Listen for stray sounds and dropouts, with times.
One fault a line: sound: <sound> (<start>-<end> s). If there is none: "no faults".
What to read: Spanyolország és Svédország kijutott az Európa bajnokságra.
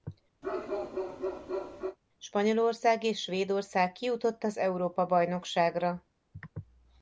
sound: bark (0.4-2.0 s)